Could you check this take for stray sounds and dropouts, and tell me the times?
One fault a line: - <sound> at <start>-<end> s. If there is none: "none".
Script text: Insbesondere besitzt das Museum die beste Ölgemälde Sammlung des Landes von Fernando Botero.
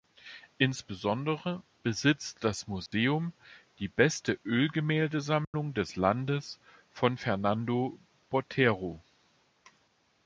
- dropout at 2.9-2.9 s
- dropout at 5.4-5.5 s